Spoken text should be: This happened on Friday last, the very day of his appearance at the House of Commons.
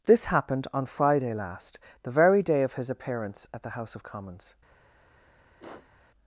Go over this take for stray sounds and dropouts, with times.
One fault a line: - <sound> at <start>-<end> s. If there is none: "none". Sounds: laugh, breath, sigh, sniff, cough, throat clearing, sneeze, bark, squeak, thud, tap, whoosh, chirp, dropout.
- sniff at 5.6-6.1 s